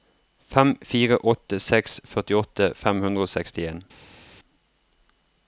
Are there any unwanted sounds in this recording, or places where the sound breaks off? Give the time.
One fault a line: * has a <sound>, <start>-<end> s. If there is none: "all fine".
all fine